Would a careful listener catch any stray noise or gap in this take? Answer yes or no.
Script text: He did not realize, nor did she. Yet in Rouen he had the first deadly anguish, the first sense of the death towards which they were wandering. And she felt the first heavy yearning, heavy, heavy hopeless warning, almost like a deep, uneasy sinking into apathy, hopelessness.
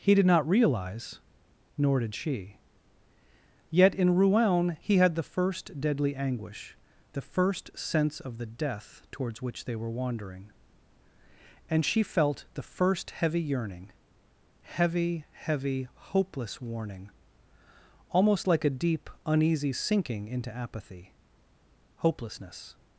no